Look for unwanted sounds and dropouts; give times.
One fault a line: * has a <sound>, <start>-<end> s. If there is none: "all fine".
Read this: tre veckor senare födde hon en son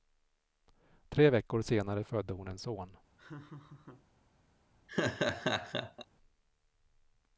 * has a laugh, 3.2-4.1 s
* has a laugh, 4.9-6.1 s